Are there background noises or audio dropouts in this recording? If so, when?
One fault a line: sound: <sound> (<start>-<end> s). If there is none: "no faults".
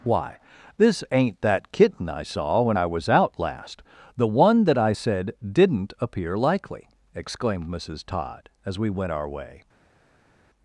no faults